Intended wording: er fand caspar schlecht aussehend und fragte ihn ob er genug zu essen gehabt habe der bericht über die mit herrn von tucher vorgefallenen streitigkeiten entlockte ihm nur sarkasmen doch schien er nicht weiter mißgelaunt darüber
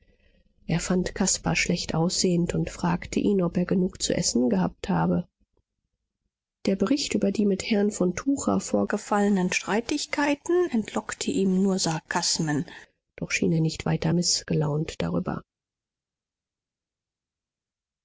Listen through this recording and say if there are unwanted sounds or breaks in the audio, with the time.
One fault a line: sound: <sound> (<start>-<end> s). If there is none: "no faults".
no faults